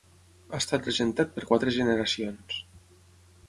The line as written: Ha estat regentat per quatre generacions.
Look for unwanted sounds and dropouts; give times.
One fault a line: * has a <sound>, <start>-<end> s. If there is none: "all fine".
all fine